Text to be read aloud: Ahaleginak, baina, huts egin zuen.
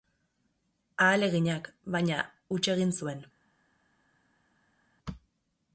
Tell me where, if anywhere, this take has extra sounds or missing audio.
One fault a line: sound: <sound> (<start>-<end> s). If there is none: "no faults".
no faults